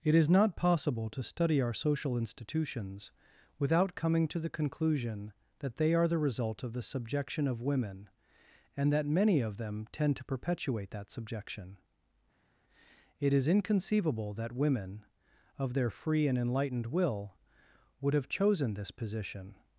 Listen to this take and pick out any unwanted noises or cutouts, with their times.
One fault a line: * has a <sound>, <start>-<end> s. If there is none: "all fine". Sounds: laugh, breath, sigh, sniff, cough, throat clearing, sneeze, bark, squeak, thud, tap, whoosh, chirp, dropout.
all fine